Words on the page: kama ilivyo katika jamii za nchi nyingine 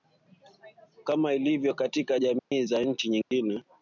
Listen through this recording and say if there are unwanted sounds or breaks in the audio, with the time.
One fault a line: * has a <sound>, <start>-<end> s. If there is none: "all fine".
* has a dropout, 2.4-2.5 s
* has a dropout, 3.2-3.3 s